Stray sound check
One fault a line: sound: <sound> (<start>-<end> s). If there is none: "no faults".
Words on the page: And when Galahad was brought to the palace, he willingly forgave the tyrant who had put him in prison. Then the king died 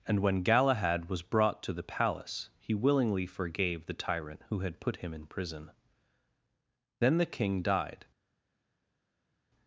no faults